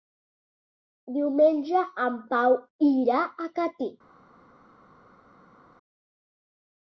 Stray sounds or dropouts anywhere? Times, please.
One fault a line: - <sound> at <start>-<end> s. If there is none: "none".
none